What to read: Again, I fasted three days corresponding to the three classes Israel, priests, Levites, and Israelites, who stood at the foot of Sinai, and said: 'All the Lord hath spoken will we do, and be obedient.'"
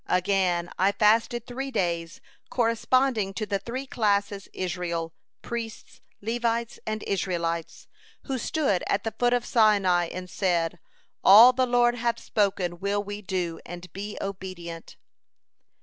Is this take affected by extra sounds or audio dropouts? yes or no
no